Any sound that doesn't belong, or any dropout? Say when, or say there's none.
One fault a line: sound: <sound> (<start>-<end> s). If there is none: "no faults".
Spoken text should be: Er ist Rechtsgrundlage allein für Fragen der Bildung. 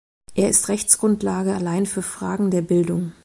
no faults